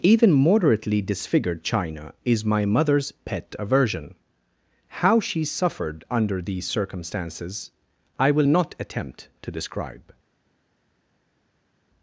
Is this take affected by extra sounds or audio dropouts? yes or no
no